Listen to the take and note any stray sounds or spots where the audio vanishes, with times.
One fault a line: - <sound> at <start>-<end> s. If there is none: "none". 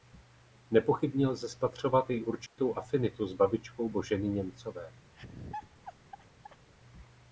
- dropout at 2.5-2.6 s
- laugh at 5.1-6.7 s